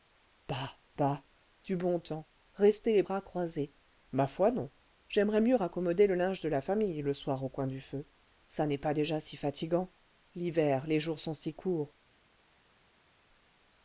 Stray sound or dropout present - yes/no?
no